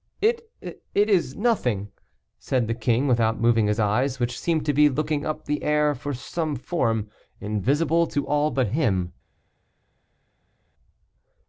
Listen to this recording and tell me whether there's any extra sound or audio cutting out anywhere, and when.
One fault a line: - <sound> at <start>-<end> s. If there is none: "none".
none